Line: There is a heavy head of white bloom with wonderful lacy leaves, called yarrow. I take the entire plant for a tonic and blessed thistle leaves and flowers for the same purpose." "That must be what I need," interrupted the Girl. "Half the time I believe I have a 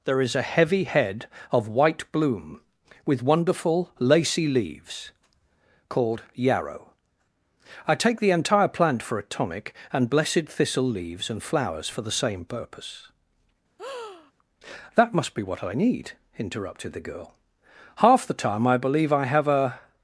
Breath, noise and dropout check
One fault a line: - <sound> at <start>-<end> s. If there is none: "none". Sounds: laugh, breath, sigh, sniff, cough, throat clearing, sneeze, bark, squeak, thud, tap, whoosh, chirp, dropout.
- breath at 13.8-14.3 s